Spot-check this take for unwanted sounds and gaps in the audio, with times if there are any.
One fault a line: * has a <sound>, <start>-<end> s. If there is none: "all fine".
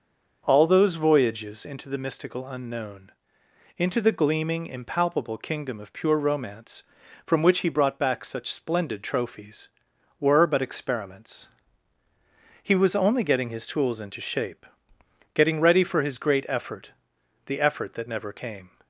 all fine